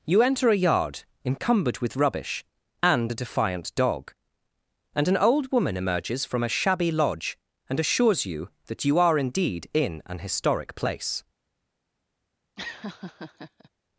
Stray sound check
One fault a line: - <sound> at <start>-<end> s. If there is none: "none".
- laugh at 12.6-13.7 s